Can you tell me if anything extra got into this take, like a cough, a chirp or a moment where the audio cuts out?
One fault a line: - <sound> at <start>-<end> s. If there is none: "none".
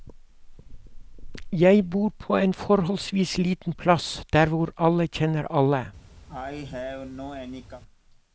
- cough at 6.3-7.8 s